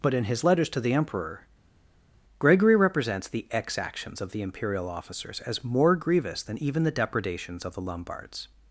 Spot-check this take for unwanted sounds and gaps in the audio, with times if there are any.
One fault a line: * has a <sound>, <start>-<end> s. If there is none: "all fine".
all fine